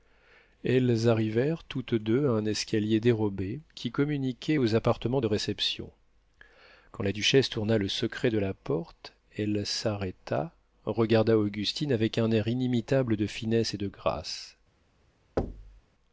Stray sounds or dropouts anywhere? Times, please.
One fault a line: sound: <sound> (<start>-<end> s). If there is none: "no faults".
sound: thud (15.4-15.8 s)